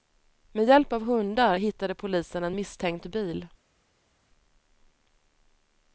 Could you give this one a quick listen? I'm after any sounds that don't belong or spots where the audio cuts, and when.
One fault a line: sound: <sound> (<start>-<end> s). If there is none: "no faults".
no faults